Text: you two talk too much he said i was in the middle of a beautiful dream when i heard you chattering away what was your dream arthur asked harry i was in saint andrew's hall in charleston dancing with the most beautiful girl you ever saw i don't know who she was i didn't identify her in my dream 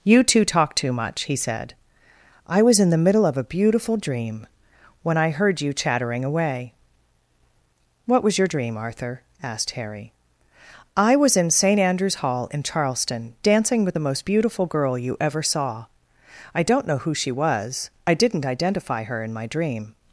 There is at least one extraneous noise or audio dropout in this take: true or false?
false